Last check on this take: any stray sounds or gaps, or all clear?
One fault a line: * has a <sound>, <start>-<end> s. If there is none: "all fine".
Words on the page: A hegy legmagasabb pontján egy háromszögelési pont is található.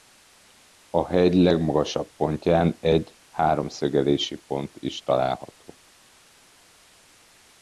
all fine